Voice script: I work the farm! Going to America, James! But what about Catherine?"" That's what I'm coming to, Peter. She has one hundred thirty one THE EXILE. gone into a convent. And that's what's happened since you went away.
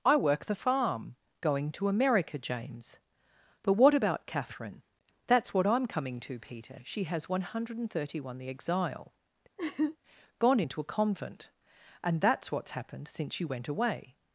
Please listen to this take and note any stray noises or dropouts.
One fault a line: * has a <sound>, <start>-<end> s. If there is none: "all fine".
* has a laugh, 9.6-10.0 s